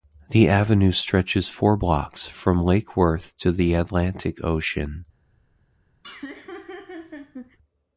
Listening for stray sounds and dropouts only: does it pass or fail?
fail